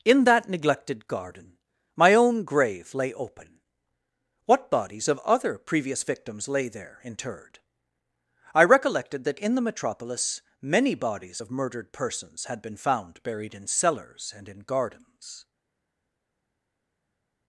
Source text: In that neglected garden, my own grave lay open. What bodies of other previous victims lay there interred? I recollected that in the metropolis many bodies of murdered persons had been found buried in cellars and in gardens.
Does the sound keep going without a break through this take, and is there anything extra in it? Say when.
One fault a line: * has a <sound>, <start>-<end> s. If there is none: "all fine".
all fine